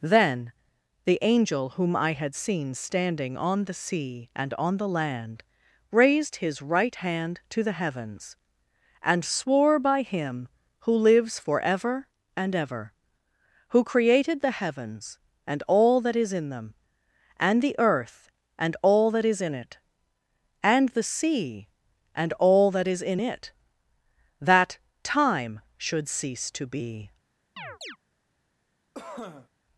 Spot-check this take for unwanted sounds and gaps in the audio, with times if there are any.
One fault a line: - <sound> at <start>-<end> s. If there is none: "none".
- chirp at 27.6-28.0 s
- cough at 28.9-29.5 s